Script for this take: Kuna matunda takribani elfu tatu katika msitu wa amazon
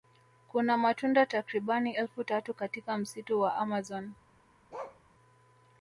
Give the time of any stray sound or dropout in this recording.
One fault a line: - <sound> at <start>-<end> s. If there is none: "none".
- bark at 4.7-5.0 s